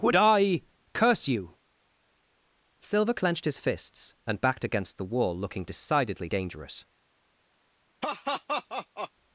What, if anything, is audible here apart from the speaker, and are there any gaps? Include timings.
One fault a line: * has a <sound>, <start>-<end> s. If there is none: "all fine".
* has a laugh, 8.0-9.1 s